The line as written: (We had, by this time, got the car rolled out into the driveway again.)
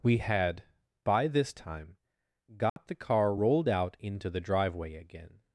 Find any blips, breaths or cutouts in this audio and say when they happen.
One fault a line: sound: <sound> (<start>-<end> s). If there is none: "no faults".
sound: dropout (2.7-2.8 s)